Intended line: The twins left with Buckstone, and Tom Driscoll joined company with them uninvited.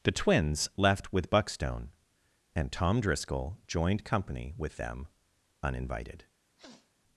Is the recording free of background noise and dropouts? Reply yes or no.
no